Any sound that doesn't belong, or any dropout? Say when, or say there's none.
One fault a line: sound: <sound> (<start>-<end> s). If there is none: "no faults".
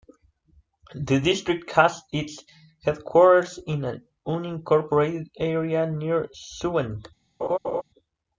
sound: laugh (7.4-7.8 s)